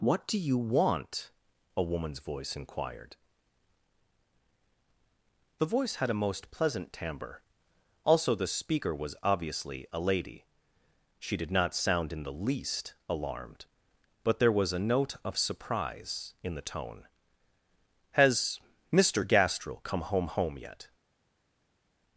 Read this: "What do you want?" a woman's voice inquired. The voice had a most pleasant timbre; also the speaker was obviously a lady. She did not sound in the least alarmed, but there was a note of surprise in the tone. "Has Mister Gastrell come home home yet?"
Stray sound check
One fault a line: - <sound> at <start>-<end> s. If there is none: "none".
none